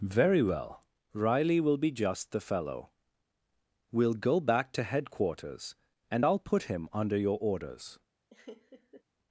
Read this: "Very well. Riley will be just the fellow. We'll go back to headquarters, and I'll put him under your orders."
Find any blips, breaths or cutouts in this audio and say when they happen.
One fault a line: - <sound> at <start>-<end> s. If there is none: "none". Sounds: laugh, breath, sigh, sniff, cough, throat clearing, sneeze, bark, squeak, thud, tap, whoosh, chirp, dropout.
- laugh at 8.3-9.0 s